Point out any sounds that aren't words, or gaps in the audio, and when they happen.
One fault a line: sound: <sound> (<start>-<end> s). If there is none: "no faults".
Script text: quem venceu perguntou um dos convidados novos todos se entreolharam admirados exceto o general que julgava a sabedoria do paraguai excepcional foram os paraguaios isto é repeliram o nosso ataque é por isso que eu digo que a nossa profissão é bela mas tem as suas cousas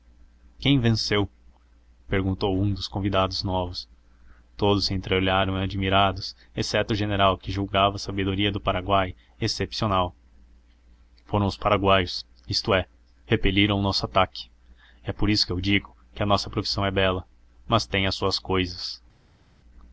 no faults